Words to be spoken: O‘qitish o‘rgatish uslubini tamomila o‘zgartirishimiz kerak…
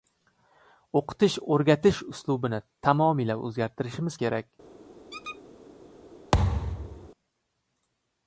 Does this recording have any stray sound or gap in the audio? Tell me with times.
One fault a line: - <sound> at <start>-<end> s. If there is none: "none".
- squeak at 5.1-5.4 s
- thud at 6.3-7.1 s